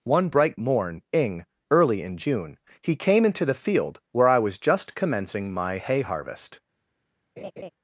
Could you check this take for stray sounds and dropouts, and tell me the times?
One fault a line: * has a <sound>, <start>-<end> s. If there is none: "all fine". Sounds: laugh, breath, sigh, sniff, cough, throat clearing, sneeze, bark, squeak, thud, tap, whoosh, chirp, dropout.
* has a laugh, 7.4-7.7 s